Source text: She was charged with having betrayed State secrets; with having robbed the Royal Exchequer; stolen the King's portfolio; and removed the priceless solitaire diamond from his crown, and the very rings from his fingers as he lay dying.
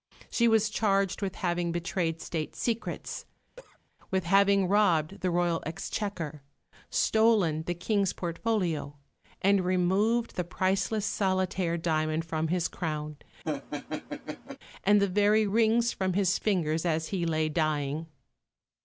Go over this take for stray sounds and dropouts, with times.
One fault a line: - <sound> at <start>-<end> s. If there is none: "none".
- cough at 3.6-3.8 s
- laugh at 13.4-14.6 s